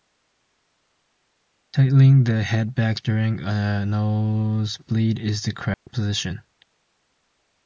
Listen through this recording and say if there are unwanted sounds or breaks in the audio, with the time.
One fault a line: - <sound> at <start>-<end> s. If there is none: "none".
- dropout at 5.7-5.9 s